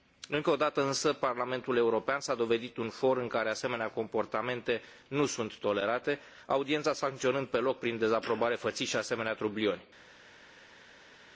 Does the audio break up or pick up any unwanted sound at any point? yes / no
no